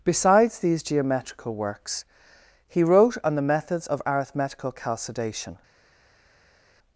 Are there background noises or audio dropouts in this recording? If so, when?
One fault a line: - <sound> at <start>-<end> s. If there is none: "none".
none